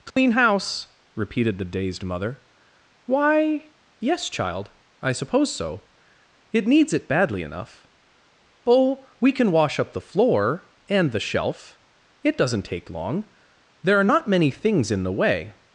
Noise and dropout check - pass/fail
fail